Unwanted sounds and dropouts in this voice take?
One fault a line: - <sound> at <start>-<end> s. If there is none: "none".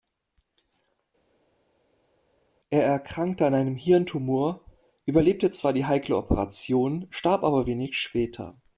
none